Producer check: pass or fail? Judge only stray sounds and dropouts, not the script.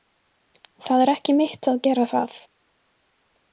pass